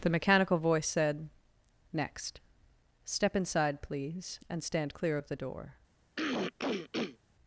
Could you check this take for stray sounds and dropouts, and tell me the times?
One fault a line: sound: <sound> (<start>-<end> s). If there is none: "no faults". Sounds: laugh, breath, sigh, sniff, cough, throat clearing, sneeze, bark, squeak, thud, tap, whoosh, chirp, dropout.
sound: throat clearing (6.2-7.2 s)